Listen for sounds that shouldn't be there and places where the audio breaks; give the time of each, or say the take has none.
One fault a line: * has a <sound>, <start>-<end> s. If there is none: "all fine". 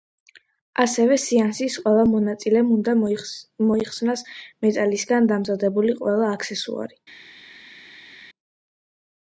all fine